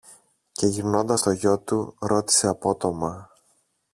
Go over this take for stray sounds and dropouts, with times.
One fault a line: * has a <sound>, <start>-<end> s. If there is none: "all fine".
all fine